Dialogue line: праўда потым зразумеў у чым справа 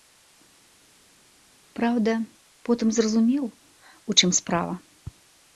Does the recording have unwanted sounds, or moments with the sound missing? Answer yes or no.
no